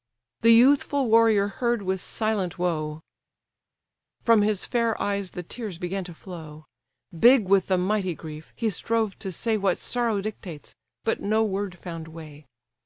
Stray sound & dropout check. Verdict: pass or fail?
pass